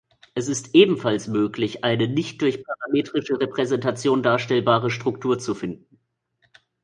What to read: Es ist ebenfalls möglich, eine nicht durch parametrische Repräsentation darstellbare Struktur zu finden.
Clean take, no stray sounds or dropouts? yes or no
yes